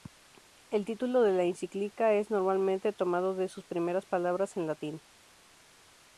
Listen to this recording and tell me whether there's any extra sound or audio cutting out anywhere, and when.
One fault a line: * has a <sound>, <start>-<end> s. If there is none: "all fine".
all fine